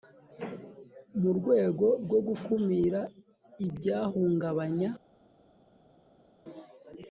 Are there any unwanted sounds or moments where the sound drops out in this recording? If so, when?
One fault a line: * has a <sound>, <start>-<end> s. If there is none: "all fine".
all fine